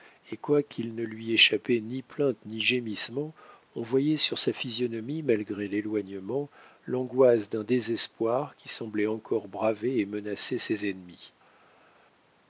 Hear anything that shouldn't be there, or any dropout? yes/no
no